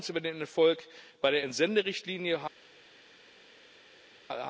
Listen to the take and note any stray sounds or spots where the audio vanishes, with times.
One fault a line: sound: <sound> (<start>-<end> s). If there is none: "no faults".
no faults